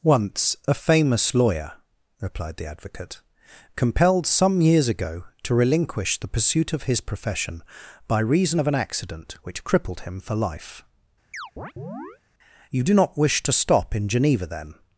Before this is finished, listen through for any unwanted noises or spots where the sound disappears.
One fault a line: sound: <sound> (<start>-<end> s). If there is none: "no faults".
sound: chirp (11.3-12.2 s)